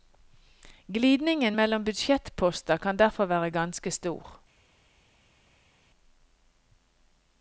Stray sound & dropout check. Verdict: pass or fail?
pass